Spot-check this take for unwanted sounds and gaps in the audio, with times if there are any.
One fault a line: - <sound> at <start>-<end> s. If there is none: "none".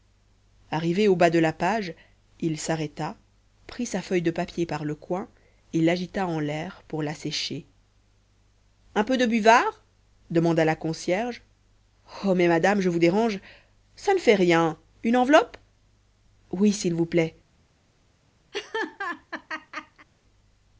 - laugh at 18.5-20.1 s